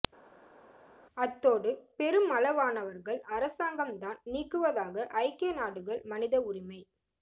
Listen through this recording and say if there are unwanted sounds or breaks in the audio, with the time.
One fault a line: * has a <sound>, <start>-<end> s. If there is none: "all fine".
all fine